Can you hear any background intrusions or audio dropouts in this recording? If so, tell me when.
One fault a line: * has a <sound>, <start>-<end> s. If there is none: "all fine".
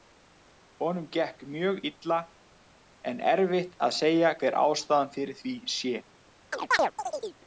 * has a chirp, 6.5-7.4 s